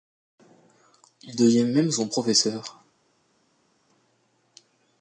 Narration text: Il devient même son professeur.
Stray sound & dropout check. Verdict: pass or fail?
pass